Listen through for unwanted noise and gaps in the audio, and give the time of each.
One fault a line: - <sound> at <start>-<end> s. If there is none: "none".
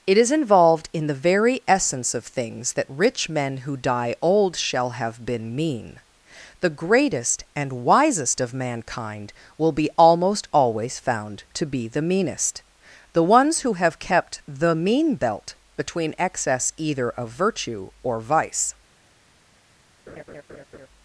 - laugh at 20.1-20.9 s